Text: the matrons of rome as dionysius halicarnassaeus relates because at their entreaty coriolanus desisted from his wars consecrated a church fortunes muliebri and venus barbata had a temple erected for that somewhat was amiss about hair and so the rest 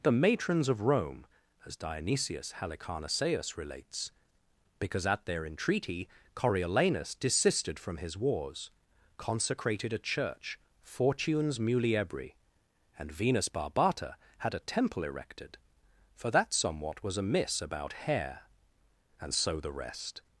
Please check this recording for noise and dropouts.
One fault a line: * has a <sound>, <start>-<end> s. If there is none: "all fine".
all fine